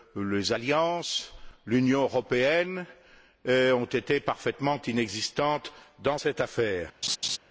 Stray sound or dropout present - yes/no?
yes